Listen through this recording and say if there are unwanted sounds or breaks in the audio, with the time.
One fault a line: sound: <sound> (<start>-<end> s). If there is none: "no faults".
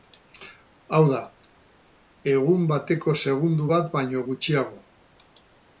no faults